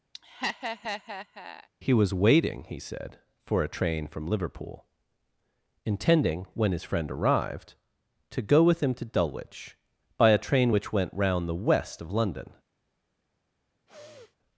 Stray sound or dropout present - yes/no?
yes